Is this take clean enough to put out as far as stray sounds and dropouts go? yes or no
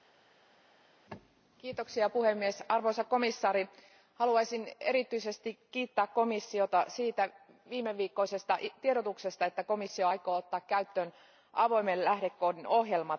yes